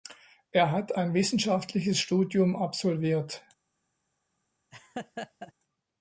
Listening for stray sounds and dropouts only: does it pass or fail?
fail